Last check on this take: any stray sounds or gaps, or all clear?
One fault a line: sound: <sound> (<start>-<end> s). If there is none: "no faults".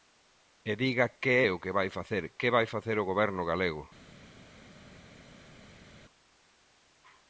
no faults